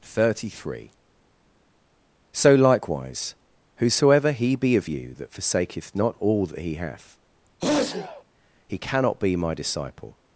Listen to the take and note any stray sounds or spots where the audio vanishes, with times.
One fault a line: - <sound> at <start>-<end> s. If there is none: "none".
- sneeze at 7.6-8.2 s